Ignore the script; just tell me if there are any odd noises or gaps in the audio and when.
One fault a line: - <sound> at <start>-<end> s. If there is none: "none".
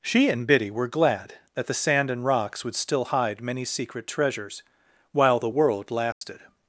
- dropout at 6.1-6.2 s